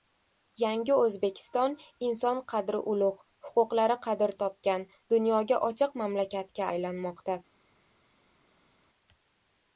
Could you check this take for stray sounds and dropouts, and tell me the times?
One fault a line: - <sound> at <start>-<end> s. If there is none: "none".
none